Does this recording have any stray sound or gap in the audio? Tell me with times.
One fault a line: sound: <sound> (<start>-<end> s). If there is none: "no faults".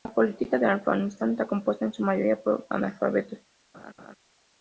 sound: laugh (3.7-4.2 s)